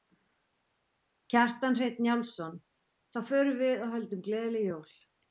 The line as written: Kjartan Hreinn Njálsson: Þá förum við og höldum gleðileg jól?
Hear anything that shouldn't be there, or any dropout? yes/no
no